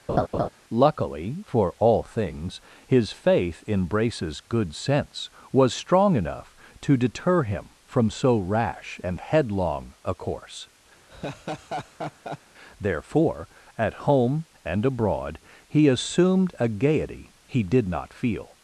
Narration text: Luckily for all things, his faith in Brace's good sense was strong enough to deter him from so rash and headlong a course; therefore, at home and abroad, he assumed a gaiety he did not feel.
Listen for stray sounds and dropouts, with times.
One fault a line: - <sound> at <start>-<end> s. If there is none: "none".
- laugh at 0.1-0.5 s
- laugh at 11.1-12.4 s